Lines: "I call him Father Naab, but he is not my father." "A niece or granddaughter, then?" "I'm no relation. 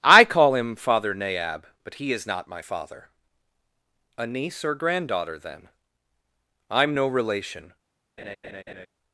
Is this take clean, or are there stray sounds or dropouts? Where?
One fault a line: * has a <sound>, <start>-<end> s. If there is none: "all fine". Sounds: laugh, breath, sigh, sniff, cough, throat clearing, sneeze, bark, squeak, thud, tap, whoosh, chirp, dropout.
* has a laugh, 8.2-8.9 s